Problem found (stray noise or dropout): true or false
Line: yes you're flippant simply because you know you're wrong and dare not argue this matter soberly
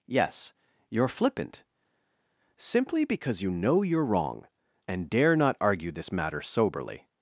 false